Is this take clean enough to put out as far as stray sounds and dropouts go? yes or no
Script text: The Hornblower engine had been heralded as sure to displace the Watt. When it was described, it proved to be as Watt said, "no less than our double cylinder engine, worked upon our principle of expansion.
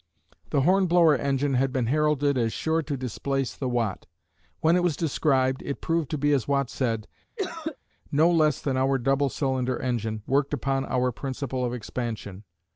no